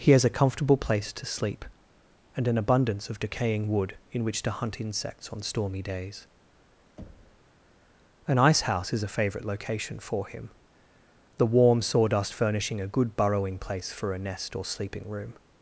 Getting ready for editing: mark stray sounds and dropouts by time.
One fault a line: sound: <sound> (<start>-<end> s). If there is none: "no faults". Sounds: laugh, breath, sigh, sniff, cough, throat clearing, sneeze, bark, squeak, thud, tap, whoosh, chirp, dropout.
sound: thud (7.0-7.5 s)